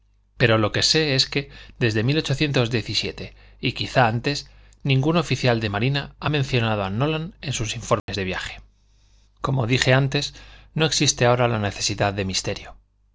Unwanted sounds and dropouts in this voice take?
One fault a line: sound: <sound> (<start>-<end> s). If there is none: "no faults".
sound: dropout (8.0-8.1 s)